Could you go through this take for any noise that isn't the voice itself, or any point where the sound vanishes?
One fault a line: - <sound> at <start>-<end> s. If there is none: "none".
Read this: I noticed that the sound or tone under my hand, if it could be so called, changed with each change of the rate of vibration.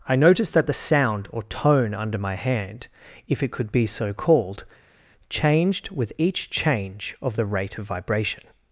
none